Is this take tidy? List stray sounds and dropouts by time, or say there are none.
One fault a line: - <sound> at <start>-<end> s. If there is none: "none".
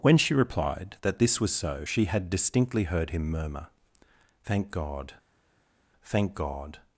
none